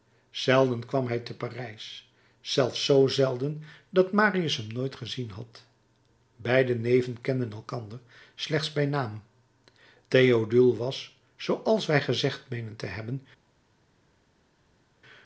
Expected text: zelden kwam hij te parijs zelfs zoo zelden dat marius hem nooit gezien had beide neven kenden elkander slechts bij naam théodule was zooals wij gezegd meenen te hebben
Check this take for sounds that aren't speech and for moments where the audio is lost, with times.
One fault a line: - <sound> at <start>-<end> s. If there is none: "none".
none